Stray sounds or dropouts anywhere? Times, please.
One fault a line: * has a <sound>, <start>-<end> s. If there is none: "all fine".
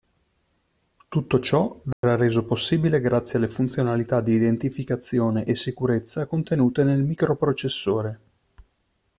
* has a dropout, 1.9-2.0 s